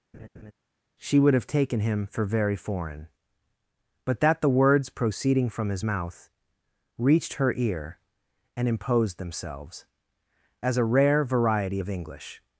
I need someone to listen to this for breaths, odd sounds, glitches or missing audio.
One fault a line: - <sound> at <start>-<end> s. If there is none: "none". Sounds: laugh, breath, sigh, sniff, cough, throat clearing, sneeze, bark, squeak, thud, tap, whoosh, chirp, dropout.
- laugh at 0.1-0.5 s